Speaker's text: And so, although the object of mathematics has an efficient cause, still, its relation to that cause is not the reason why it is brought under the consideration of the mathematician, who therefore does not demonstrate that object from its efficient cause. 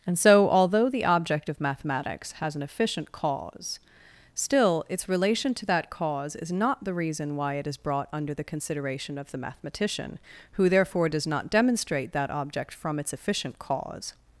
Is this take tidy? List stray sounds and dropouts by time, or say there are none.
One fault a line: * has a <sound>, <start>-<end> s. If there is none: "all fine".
all fine